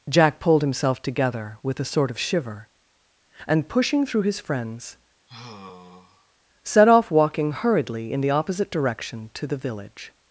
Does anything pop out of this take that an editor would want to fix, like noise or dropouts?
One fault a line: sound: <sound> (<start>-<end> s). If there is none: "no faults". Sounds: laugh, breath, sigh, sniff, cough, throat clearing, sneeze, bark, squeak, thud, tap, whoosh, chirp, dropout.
sound: sigh (5.3-6.3 s)